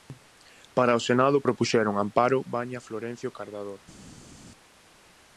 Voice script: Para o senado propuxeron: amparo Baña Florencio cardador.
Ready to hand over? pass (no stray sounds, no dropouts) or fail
pass